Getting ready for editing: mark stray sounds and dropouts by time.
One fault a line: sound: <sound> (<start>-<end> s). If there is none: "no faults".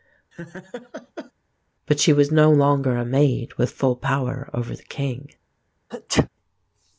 sound: laugh (0.3-1.3 s)
sound: sneeze (5.9-6.3 s)